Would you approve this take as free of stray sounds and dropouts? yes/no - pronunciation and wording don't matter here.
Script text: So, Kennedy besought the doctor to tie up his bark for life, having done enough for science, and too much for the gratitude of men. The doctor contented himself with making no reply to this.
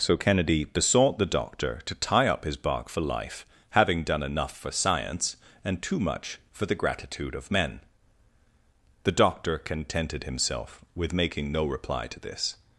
yes